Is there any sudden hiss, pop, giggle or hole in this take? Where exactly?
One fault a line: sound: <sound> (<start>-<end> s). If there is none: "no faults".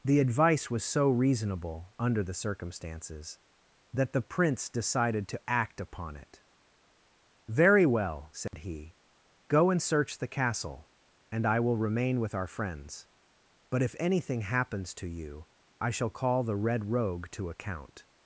sound: dropout (8.5-8.5 s)